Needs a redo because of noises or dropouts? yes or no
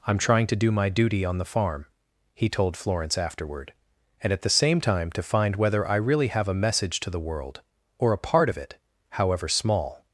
no